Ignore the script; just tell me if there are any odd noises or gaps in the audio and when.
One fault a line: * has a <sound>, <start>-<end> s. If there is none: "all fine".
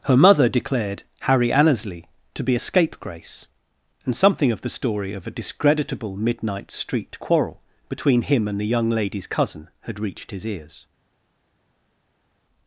all fine